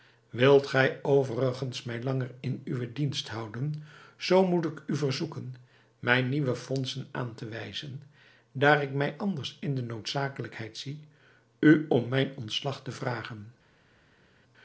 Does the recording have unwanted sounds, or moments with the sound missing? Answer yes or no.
no